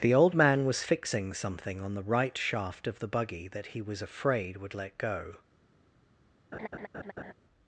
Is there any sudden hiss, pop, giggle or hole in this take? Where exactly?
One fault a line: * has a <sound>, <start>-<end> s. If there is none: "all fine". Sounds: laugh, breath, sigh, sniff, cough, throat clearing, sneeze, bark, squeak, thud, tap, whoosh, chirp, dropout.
* has a laugh, 6.5-7.3 s